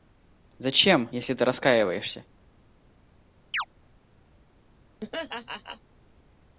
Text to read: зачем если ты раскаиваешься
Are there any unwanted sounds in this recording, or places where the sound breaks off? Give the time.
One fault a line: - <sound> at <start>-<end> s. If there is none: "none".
- chirp at 3.5-3.7 s
- laugh at 5.0-5.8 s